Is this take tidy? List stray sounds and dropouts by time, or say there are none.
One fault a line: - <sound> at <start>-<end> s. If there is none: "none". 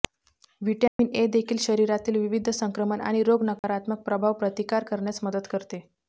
- dropout at 0.9-1.0 s
- dropout at 3.6-3.6 s